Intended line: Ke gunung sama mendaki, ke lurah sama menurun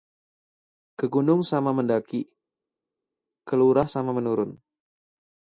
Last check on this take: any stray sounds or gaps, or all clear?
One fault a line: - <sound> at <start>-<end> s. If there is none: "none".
none